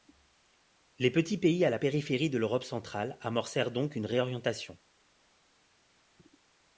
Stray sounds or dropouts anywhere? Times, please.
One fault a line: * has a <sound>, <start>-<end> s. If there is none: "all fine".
all fine